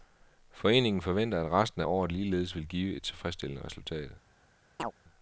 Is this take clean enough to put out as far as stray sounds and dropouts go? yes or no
no